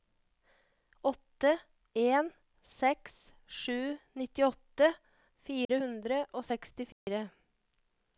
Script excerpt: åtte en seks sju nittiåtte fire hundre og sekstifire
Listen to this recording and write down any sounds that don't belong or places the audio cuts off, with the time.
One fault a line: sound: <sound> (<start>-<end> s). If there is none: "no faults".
sound: dropout (5.6-5.7 s)
sound: dropout (6.9-7.1 s)